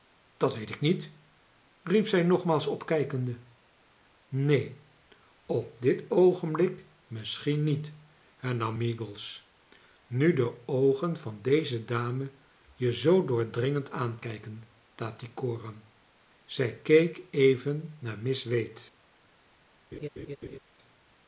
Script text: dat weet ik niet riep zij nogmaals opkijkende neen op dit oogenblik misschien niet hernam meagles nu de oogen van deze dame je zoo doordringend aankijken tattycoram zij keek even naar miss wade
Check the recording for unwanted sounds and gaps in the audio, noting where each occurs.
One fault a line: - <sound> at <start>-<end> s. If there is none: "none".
- laugh at 19.9-20.6 s